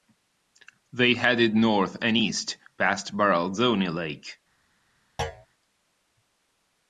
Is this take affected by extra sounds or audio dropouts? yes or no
yes